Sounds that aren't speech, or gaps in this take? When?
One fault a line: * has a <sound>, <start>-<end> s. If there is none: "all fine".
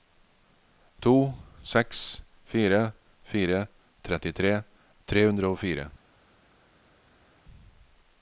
all fine